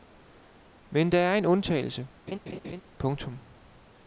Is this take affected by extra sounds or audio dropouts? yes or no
yes